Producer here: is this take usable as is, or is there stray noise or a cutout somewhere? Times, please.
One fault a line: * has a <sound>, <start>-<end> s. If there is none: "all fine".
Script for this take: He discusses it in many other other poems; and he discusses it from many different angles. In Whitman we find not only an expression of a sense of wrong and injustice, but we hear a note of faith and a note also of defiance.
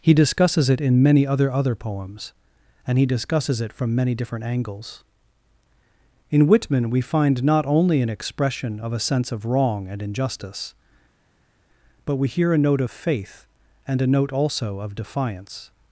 all fine